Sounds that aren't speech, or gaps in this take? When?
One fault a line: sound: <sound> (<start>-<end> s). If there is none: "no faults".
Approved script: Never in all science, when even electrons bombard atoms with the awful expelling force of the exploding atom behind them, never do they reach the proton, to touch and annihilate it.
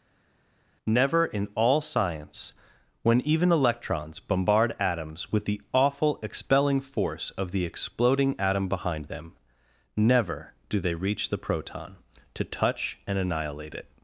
no faults